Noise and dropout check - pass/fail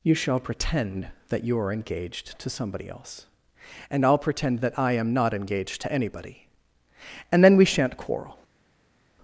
pass